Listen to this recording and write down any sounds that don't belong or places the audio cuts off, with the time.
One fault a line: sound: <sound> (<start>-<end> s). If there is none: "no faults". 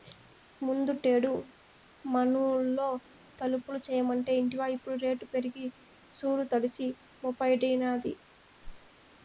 sound: whoosh (8.6-8.9 s)